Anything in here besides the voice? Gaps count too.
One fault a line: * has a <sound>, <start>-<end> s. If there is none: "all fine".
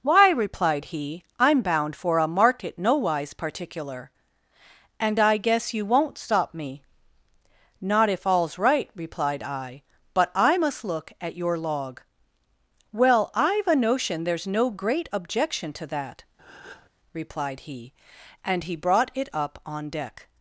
* has a breath, 16.4-16.9 s